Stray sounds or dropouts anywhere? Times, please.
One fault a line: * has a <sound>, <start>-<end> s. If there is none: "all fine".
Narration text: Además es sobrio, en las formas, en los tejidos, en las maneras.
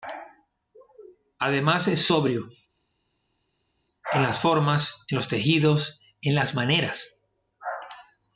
all fine